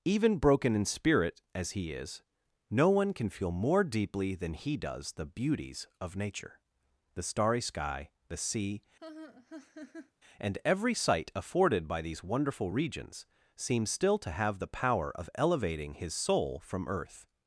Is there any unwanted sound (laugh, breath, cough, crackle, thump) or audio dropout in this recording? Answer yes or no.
yes